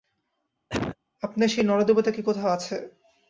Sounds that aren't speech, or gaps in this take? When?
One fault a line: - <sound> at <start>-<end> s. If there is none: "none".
- cough at 0.7-1.0 s